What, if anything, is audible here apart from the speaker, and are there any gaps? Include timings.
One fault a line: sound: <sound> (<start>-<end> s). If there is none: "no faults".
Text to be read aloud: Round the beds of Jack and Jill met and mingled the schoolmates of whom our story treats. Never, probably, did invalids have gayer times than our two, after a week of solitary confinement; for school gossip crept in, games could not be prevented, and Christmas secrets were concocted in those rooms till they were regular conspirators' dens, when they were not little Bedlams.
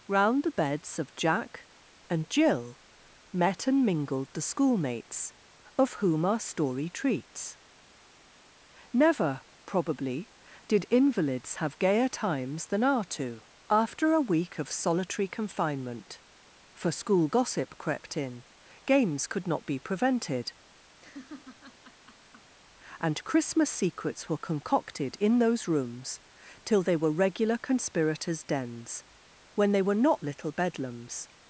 sound: laugh (21.0-22.6 s)